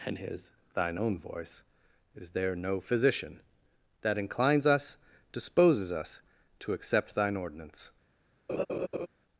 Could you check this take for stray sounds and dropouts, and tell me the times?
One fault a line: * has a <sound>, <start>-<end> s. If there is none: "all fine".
* has a laugh, 8.5-9.1 s